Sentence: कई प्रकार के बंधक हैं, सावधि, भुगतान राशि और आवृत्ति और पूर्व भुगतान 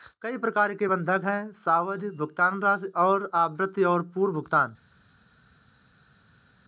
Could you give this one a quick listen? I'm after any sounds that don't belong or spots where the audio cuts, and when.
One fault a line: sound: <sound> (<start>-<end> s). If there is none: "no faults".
no faults